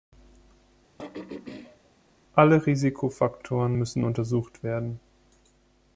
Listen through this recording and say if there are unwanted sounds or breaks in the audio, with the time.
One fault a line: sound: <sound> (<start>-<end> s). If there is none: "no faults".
sound: throat clearing (1.0-1.9 s)